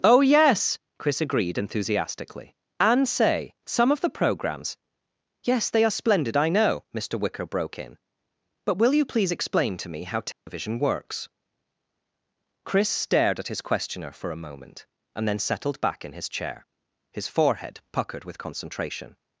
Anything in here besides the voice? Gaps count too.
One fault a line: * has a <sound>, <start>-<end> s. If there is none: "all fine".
* has a dropout, 10.3-10.5 s